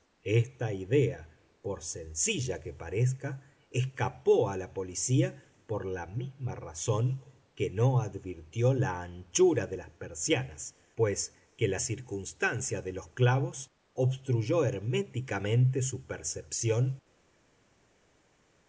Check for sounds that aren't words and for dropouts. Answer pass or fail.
pass